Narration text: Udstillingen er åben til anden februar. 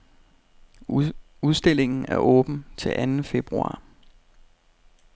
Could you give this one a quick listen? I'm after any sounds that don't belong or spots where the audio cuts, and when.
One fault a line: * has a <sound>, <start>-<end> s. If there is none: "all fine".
all fine